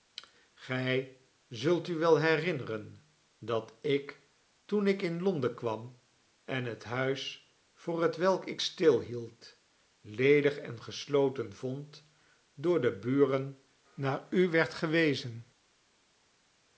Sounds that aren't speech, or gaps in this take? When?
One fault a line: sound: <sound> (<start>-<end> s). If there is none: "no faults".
no faults